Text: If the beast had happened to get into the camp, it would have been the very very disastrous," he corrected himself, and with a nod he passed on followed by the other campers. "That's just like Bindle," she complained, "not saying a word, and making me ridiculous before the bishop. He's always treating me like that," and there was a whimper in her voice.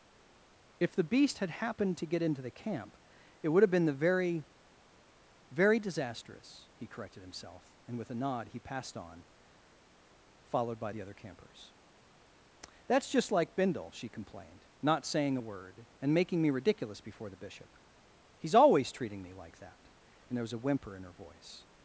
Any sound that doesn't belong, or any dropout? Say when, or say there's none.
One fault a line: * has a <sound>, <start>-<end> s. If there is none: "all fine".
all fine